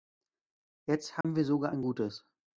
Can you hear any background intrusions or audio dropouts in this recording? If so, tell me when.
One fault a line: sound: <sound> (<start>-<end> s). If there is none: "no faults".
sound: dropout (1.2-1.2 s)